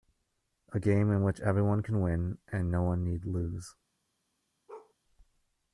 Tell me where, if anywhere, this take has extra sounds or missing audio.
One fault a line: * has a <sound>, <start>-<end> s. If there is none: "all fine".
* has a bark, 4.7-4.9 s